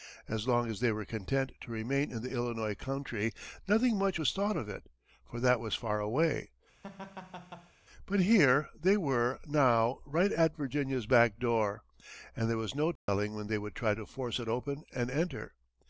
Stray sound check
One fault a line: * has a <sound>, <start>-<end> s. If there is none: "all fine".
* has a laugh, 6.8-7.7 s
* has a dropout, 13.0-13.1 s